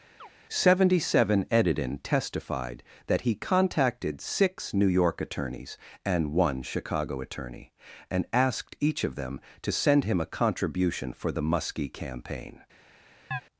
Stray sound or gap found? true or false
true